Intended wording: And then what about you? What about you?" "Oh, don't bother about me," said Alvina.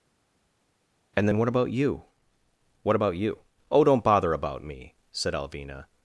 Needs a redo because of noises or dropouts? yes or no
no